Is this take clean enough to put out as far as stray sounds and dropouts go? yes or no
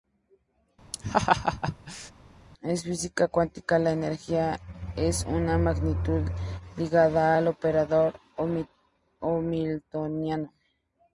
no